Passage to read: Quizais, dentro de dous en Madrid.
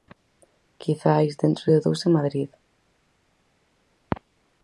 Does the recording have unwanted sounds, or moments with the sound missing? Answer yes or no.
no